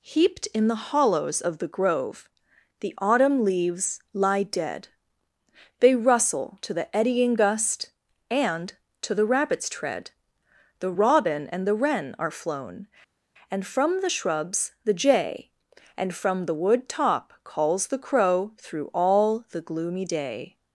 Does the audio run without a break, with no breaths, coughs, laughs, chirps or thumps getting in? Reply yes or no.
yes